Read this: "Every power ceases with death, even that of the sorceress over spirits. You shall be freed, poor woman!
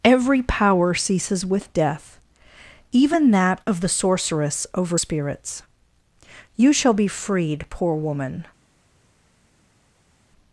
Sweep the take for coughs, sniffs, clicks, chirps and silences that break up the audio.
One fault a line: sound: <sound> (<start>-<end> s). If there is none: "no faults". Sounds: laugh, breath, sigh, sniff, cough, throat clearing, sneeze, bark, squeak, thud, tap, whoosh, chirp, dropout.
no faults